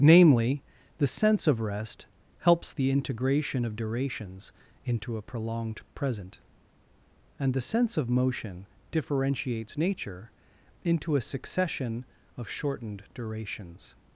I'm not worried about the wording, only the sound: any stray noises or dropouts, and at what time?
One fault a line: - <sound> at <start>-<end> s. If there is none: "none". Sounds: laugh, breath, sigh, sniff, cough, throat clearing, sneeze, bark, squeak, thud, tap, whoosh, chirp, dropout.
none